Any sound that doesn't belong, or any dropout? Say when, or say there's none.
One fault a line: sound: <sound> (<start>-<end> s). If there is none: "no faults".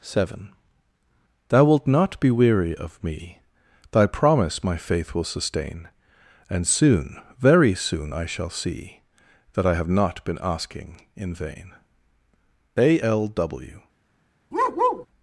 sound: bark (14.5-15.1 s)